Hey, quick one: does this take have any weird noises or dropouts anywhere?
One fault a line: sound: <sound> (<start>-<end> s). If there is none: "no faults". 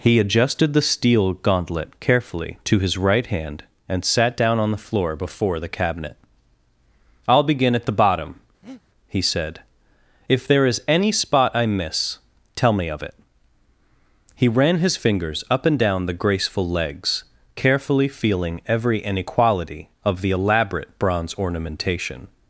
sound: breath (8.6-8.8 s)